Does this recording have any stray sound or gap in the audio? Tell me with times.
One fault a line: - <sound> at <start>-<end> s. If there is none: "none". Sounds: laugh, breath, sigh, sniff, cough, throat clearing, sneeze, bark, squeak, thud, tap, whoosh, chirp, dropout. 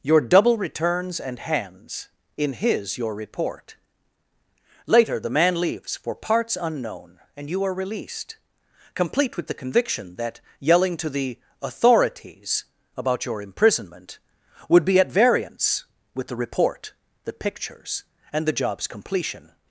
none